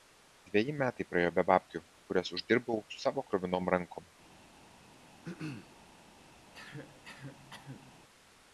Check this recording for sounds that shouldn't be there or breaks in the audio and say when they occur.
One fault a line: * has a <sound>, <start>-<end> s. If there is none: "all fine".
* has a throat clearing, 5.2-5.8 s
* has a cough, 6.5-8.0 s